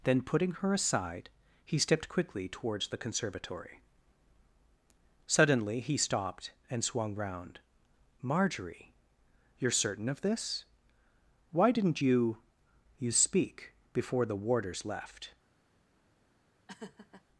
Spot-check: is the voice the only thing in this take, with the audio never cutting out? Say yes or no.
no